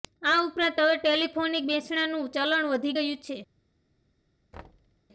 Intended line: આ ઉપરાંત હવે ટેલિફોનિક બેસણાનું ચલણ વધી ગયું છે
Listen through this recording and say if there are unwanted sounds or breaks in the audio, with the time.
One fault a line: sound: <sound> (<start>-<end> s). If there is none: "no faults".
sound: thud (4.5-5.0 s)